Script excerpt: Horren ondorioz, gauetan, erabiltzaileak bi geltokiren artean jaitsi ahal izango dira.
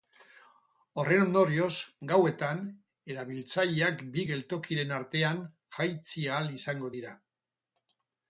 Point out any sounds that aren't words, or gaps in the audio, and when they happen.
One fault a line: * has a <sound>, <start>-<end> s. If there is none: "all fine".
all fine